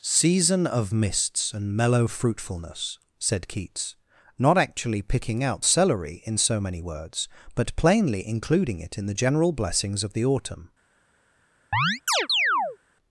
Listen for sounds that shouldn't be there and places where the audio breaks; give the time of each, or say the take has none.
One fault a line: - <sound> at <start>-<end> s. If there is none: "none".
- chirp at 11.7-12.8 s